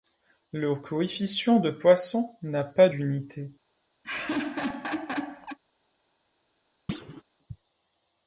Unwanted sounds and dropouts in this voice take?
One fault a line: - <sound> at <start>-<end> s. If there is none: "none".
- laugh at 4.0-5.6 s
- thud at 6.9-7.2 s